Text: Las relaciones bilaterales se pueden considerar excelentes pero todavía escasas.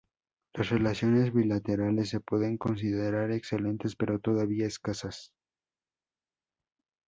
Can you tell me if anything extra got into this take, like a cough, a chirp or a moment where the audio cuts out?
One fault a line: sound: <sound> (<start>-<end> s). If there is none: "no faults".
no faults